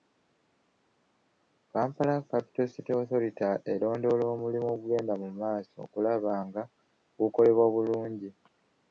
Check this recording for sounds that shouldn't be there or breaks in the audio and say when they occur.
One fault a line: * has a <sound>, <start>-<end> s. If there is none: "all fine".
all fine